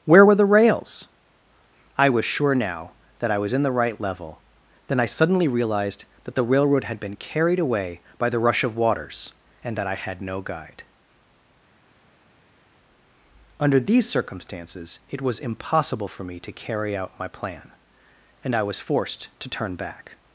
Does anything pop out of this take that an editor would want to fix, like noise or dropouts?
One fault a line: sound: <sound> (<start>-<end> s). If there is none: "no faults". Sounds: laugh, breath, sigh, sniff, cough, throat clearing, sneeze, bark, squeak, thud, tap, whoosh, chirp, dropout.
no faults